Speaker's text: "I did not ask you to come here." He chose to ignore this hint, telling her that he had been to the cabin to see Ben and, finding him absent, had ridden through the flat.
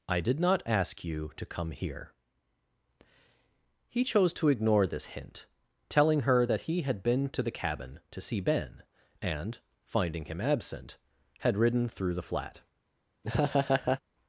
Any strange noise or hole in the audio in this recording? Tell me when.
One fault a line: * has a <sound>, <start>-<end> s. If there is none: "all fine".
* has a laugh, 13.2-14.0 s